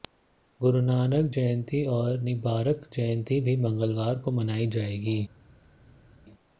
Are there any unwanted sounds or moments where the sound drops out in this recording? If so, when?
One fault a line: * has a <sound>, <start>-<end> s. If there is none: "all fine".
all fine